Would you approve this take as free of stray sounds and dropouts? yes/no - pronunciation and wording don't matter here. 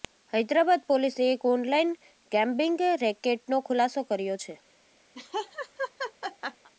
no